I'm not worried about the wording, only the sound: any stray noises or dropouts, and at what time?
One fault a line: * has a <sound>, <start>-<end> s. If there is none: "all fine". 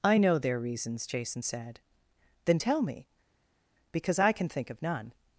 all fine